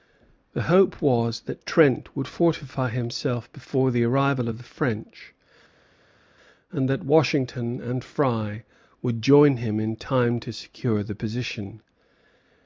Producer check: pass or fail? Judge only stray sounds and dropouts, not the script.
pass